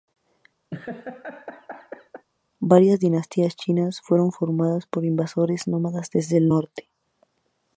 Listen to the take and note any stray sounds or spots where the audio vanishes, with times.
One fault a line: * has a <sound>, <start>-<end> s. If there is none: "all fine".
* has a laugh, 0.7-2.3 s